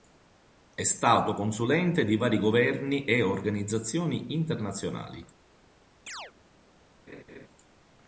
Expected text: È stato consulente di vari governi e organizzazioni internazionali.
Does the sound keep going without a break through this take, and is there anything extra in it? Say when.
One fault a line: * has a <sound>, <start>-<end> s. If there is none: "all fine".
* has a chirp, 6.1-6.3 s
* has a laugh, 7.1-7.5 s